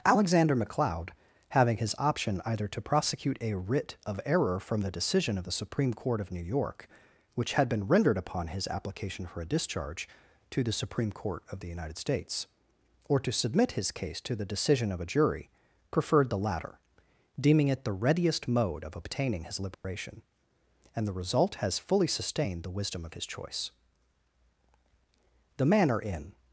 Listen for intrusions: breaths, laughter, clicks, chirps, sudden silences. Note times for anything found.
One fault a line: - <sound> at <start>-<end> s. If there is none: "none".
- dropout at 19.7-19.8 s